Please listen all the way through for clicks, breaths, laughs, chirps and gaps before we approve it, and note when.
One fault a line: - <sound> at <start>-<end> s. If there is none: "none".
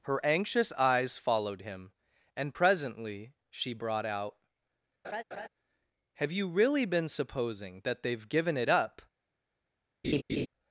- laugh at 5.0-5.5 s
- laugh at 10.0-10.5 s